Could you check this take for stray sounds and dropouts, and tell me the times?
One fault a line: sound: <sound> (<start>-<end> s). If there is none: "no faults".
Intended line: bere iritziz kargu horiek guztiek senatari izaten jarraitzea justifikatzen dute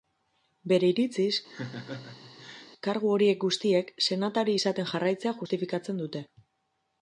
sound: laugh (1.5-2.7 s)